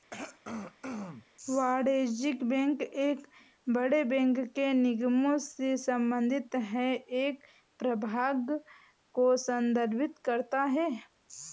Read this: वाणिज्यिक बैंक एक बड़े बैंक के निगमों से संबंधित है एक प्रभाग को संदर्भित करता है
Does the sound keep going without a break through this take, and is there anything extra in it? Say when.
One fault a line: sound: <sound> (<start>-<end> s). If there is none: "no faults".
sound: throat clearing (0.1-1.3 s)